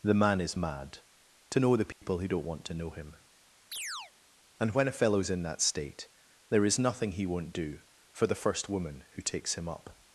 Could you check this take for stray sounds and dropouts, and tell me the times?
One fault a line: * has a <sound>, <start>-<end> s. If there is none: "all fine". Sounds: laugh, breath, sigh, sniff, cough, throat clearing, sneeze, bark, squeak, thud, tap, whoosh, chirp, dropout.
* has a dropout, 1.9-2.0 s
* has a chirp, 3.7-4.1 s